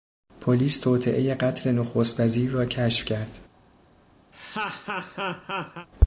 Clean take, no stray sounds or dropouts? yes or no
no